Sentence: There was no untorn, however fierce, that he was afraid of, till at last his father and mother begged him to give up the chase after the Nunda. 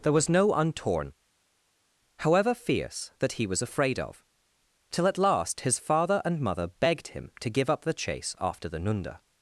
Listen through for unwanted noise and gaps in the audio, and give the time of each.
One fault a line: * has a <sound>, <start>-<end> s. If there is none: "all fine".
all fine